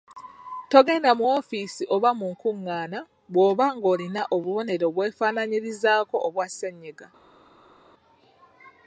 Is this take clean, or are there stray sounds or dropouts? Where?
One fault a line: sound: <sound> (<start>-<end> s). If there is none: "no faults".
no faults